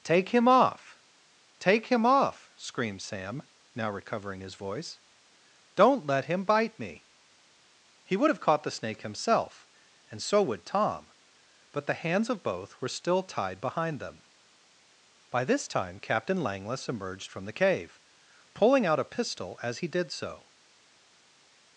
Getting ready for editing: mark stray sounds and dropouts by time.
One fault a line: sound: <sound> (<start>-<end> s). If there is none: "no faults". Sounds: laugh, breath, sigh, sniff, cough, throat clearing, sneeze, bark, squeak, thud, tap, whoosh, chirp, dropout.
no faults